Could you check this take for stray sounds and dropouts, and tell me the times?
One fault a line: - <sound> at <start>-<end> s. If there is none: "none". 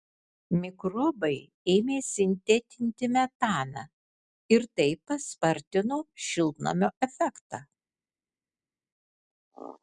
none